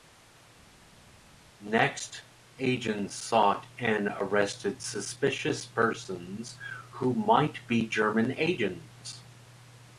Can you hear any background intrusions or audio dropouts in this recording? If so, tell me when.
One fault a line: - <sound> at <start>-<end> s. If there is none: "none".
none